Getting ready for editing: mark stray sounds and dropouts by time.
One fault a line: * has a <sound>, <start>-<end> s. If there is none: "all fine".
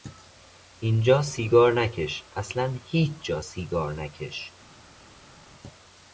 all fine